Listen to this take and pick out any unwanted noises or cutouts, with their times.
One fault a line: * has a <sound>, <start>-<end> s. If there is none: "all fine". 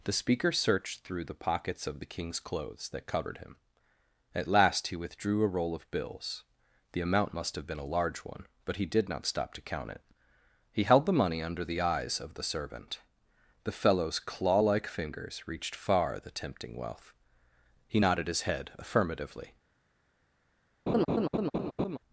* has a laugh, 20.9-22.0 s